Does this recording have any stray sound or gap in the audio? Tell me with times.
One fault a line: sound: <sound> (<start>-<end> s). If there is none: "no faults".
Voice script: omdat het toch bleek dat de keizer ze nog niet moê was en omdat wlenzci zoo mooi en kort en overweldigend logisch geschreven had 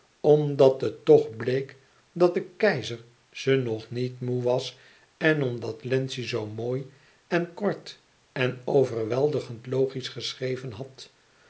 no faults